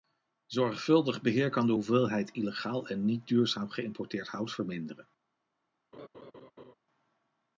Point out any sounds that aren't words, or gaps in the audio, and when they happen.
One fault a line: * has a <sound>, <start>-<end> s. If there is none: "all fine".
* has a laugh, 5.9-6.7 s